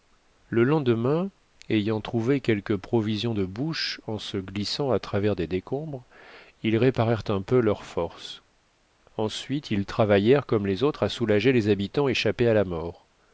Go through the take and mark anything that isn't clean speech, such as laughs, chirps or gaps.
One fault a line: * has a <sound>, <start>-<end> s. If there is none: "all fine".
all fine